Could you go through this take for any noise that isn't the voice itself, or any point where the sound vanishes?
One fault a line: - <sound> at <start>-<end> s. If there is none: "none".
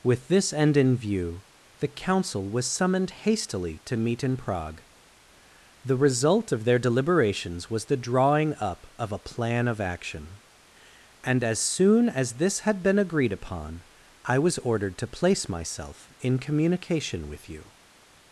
none